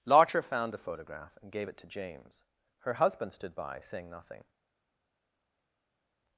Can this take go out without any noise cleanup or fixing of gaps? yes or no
yes